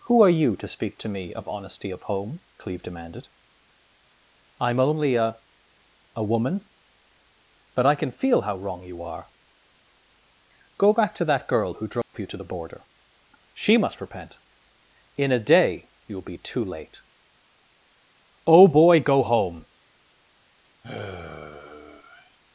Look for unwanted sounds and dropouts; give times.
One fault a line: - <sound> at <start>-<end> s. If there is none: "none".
- dropout at 12.0-12.1 s
- sigh at 20.8-22.4 s